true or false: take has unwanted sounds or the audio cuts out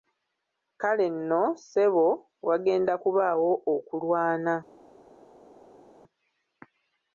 false